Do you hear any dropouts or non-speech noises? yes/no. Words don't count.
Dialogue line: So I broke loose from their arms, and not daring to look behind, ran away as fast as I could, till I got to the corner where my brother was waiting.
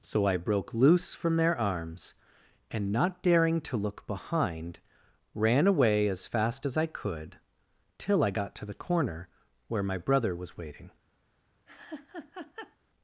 yes